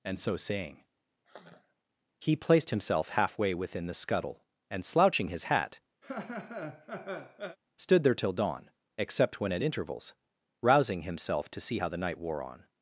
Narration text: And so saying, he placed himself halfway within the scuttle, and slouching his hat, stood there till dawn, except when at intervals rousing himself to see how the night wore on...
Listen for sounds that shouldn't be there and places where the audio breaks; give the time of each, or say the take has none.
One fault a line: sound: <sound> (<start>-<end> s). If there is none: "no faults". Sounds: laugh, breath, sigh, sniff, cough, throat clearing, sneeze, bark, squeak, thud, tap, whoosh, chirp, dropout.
sound: sigh (1.2-1.7 s)
sound: laugh (6.0-7.6 s)